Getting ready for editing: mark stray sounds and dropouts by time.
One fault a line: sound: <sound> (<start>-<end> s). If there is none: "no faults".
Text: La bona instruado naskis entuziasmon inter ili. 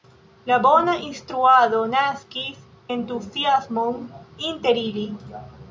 no faults